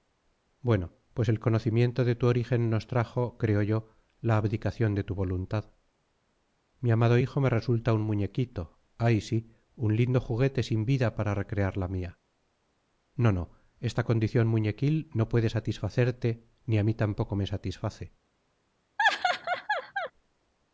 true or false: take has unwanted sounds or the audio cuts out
true